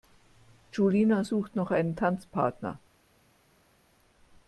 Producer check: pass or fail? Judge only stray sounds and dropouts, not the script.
pass